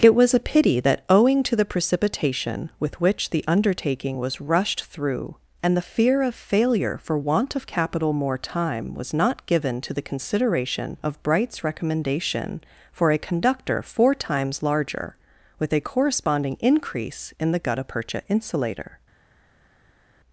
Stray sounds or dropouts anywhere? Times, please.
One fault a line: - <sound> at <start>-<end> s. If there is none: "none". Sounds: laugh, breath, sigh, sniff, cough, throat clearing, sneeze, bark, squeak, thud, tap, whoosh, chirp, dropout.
none